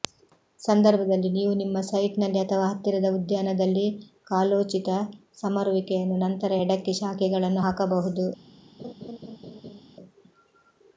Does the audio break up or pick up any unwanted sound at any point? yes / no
yes